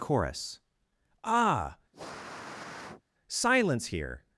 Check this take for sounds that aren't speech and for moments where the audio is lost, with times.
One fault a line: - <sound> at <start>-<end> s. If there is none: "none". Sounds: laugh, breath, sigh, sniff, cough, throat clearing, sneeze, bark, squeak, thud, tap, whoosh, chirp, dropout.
- sniff at 1.9-3.0 s